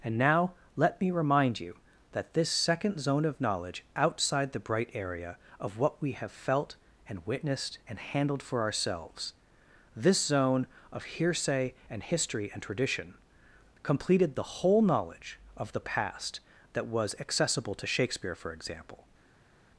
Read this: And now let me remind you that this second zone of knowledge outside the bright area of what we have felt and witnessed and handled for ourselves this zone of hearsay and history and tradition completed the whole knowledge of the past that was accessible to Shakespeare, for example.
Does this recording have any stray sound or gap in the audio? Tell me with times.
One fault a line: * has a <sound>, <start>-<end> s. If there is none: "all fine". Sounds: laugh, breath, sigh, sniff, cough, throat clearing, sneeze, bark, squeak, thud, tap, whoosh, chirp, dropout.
all fine